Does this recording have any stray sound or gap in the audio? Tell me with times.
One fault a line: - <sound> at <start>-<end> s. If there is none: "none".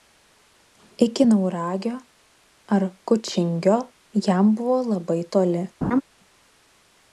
- laugh at 5.8-6.0 s